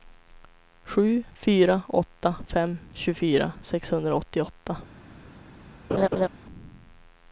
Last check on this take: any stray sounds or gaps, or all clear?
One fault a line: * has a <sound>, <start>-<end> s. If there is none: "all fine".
* has a laugh, 5.9-6.3 s